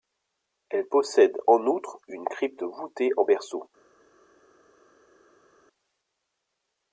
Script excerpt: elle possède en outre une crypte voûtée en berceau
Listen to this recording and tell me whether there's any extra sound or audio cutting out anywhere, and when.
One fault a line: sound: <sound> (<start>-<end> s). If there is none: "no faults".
no faults